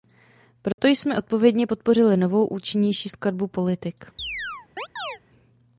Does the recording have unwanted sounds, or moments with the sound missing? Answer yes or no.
yes